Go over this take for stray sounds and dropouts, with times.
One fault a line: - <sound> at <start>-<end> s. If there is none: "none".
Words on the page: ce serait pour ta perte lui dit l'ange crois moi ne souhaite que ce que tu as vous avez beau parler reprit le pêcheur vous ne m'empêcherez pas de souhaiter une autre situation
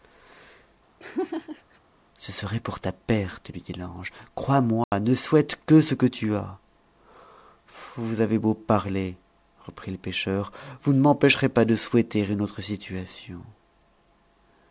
- laugh at 1.0-1.8 s
- dropout at 4.8-4.9 s